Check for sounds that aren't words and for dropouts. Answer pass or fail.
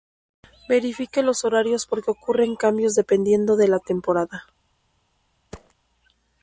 fail